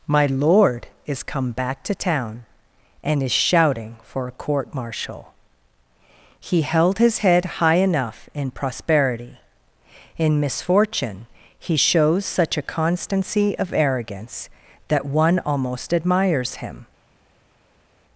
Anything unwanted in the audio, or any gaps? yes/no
no